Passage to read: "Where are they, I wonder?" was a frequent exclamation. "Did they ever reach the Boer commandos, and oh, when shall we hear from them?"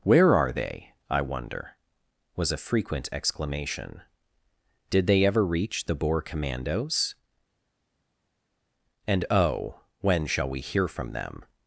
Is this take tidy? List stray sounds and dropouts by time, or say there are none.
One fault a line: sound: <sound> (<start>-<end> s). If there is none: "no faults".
no faults